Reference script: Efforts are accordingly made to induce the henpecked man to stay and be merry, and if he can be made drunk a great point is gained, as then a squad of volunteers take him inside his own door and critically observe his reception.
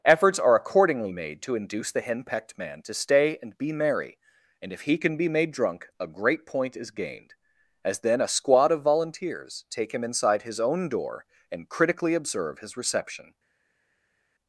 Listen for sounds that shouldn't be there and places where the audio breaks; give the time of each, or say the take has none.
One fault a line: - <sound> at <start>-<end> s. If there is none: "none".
none